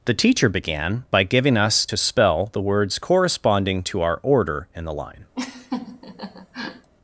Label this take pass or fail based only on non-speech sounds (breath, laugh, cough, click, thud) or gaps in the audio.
fail